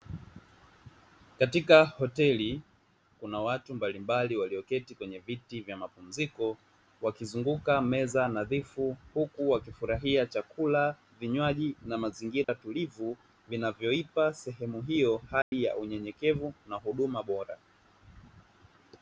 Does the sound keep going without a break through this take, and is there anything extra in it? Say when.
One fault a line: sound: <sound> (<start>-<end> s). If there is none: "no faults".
sound: dropout (12.4-12.5 s)
sound: dropout (15.4-15.5 s)